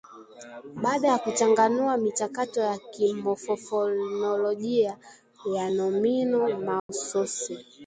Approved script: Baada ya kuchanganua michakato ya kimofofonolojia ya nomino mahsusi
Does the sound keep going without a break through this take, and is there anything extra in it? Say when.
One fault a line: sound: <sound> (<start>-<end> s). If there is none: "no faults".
sound: dropout (6.8-6.9 s)